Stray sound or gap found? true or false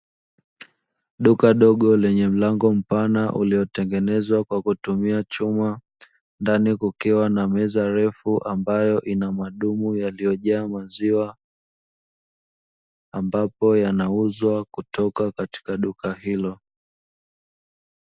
false